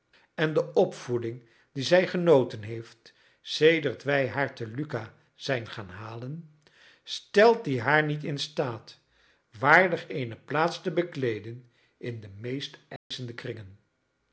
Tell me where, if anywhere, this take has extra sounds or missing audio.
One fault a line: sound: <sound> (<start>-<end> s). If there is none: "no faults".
sound: dropout (13.0-13.1 s)